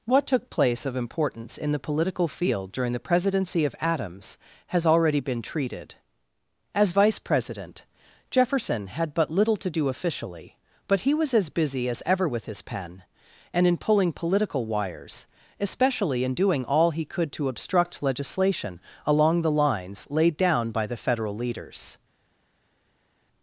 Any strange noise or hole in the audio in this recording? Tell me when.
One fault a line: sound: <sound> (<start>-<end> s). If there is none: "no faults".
no faults